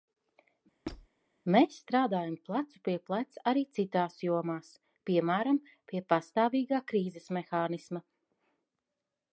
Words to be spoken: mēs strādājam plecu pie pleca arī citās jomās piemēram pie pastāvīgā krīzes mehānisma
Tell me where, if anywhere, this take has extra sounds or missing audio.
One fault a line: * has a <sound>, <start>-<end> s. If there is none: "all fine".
* has a squeak, 0.9-1.1 s